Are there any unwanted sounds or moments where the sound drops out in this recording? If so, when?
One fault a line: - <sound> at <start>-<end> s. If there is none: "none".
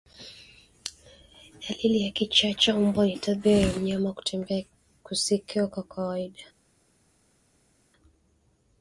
none